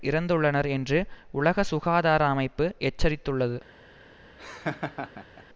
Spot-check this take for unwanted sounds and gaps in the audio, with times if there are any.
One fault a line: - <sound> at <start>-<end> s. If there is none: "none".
- laugh at 4.4-5.4 s